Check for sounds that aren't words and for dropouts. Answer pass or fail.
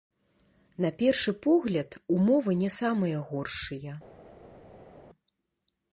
pass